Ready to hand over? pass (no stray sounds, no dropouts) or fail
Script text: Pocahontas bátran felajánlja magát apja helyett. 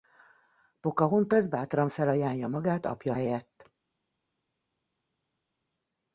pass